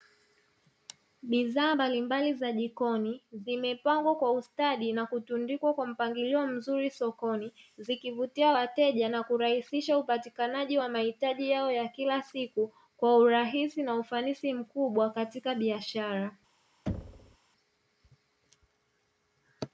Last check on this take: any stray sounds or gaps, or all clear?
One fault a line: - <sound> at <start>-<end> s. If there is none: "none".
- thud at 16.9-17.4 s